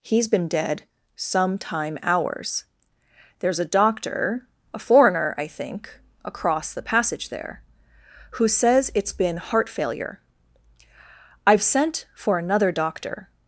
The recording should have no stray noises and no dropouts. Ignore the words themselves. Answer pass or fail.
pass